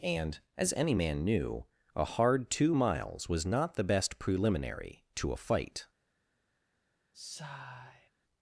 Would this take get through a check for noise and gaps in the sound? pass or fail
fail